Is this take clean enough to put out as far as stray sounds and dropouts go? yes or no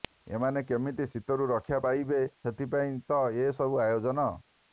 yes